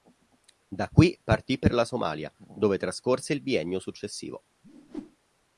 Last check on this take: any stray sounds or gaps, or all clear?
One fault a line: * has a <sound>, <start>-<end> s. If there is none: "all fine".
* has a whoosh, 4.6-5.2 s